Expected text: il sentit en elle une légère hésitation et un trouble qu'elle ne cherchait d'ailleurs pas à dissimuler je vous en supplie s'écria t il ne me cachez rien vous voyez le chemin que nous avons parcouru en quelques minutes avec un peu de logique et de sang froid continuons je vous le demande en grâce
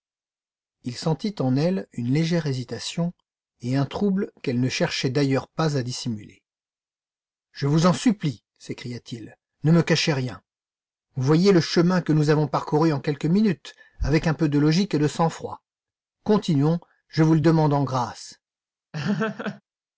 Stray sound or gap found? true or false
true